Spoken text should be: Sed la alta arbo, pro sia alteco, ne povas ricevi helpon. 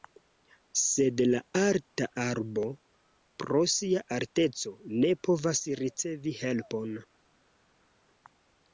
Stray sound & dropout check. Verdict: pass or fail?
pass